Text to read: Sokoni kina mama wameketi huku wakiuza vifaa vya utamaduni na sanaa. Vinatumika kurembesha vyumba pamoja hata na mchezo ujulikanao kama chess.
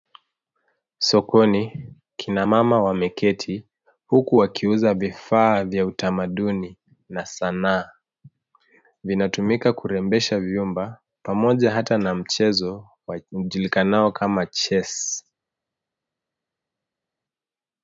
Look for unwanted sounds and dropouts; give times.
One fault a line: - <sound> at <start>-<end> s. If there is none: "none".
none